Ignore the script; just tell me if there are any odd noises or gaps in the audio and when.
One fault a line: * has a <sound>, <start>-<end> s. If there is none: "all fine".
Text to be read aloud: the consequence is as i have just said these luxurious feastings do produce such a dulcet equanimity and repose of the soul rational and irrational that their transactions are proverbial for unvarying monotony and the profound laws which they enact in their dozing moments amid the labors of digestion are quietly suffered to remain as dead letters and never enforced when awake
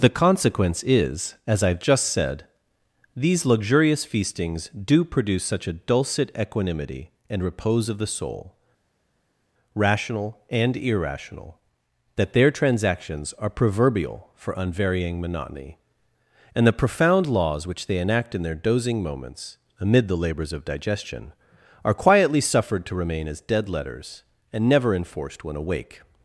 all fine